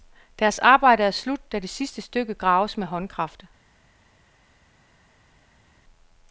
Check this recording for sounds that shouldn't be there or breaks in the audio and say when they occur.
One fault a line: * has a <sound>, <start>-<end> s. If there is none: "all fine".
all fine